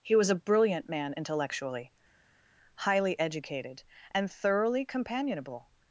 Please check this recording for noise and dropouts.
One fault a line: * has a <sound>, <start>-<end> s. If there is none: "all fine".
all fine